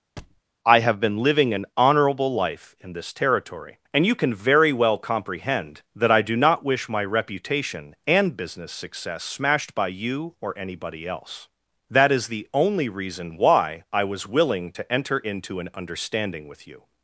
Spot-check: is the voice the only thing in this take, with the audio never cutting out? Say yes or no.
no